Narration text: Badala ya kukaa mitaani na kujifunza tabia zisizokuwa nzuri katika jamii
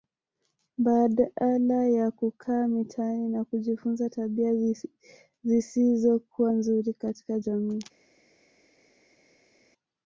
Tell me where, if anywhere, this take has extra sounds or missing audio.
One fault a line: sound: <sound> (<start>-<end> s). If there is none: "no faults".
no faults